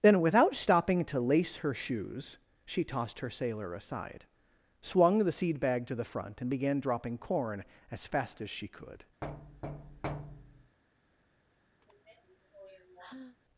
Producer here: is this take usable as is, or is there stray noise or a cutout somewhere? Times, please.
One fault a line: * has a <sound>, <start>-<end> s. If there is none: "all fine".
* has a thud, 9.2-10.8 s
* has a sigh, 11.8-13.4 s